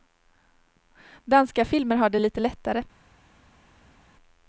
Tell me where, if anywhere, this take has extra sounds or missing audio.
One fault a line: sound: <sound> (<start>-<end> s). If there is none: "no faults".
no faults